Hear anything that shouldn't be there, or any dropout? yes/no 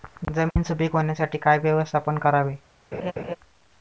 yes